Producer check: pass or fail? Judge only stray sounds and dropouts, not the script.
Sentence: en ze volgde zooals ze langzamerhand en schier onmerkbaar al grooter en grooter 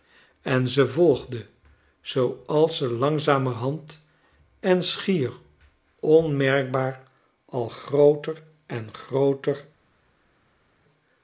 pass